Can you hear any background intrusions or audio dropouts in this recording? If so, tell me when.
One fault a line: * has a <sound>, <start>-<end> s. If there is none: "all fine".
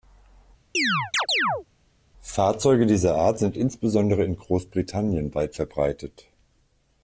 * has a chirp, 0.7-1.7 s